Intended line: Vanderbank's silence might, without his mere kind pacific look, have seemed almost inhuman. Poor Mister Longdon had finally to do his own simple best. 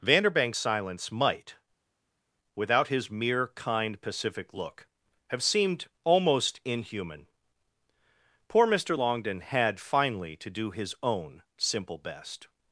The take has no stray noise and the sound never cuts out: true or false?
true